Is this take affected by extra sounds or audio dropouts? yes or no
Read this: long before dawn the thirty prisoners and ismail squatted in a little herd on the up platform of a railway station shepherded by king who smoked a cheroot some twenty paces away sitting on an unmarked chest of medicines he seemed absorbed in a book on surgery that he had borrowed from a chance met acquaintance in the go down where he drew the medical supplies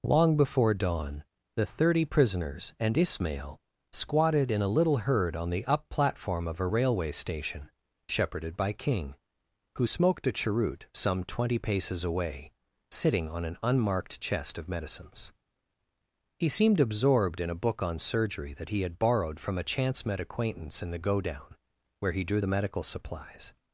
no